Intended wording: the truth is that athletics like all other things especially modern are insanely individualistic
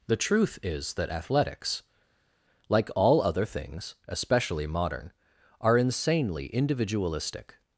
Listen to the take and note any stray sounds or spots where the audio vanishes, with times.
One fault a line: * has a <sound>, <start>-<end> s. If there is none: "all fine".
all fine